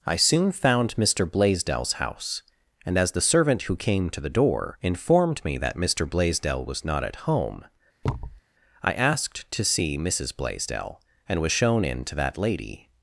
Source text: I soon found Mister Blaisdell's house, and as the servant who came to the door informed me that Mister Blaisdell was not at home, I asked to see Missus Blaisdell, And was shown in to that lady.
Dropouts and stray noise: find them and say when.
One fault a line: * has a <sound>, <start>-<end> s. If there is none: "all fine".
* has a thud, 8.0-8.4 s